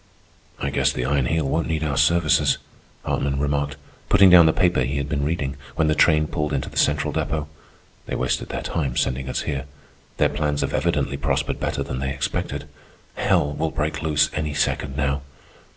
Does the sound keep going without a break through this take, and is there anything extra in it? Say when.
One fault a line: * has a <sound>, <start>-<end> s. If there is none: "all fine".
all fine